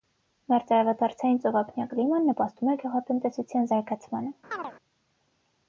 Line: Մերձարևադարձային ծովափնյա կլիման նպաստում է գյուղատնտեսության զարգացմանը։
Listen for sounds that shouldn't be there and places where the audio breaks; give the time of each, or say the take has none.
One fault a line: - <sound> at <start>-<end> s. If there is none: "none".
- chirp at 4.5-4.7 s